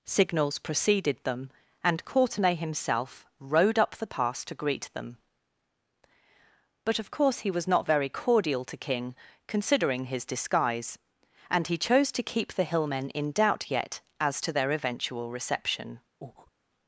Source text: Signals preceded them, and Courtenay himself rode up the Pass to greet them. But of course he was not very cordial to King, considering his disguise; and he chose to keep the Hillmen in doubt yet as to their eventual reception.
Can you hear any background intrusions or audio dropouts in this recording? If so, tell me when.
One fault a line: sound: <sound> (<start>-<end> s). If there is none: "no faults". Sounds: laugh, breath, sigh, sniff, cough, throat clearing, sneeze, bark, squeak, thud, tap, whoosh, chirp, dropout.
sound: breath (16.2-16.5 s)